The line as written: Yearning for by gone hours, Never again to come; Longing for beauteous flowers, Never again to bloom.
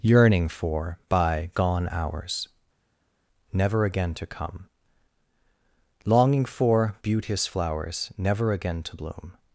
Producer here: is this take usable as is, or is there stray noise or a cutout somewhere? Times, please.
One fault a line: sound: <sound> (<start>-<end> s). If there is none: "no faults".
no faults